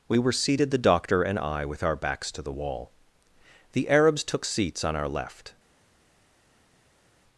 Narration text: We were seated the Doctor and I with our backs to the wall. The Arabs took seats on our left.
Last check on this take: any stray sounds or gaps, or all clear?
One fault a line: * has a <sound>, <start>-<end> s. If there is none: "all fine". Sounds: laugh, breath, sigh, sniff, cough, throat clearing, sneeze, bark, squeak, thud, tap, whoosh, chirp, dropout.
all fine